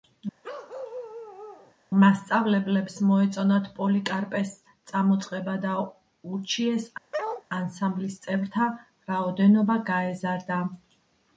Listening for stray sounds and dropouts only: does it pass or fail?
fail